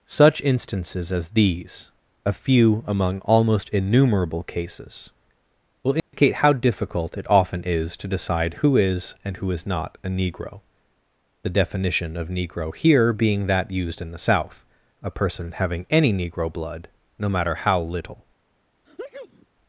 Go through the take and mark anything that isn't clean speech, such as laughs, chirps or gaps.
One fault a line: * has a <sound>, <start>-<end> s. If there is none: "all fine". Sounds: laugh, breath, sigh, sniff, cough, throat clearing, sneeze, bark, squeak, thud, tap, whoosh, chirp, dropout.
* has a dropout, 6.0-6.1 s
* has a sneeze, 18.8-19.5 s